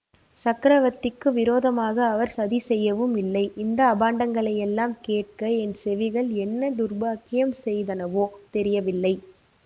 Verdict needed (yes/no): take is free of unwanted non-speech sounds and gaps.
yes